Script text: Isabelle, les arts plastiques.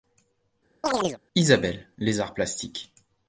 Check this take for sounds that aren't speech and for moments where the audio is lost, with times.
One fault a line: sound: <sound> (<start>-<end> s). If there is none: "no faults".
sound: chirp (0.8-1.2 s)